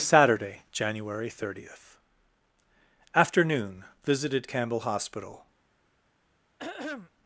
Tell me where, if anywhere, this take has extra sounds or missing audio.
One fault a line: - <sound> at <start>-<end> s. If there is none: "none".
- throat clearing at 6.6-7.1 s